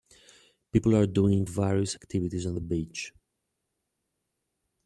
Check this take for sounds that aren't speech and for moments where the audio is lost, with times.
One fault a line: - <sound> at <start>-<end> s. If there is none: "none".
none